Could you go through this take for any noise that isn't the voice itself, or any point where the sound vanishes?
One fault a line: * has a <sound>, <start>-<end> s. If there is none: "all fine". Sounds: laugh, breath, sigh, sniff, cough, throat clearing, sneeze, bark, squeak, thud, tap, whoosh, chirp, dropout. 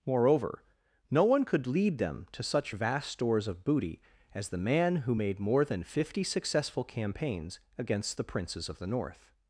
all fine